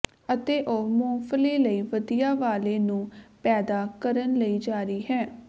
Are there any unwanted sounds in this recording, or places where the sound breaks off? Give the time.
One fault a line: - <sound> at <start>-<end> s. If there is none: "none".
none